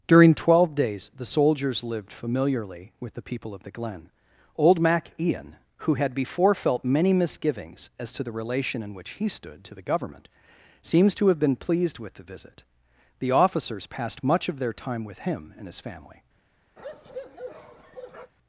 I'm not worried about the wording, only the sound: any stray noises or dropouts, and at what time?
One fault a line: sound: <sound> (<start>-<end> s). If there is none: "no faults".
sound: bark (16.8-18.3 s)